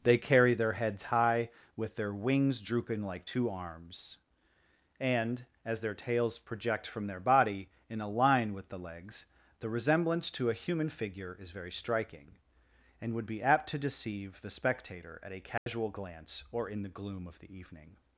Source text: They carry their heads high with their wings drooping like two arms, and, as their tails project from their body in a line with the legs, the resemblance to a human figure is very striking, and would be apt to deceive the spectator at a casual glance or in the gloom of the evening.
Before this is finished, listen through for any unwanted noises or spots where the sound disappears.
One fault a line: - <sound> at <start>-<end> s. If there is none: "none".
- dropout at 15.6-15.7 s